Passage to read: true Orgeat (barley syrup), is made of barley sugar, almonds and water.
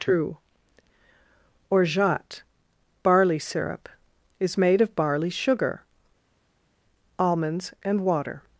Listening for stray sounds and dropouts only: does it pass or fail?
pass